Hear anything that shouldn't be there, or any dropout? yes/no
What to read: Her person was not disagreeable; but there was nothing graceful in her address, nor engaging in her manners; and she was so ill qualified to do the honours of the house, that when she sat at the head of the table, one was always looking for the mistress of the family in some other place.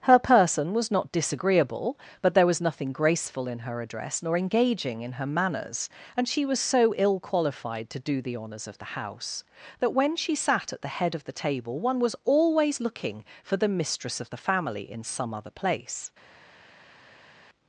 no